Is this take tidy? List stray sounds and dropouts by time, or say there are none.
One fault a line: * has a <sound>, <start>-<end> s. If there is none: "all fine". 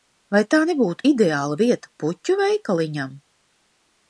all fine